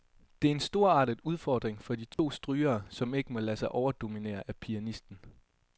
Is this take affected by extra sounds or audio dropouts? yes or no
yes